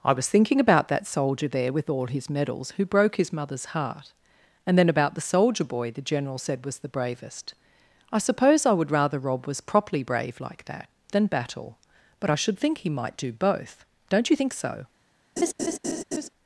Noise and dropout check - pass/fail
fail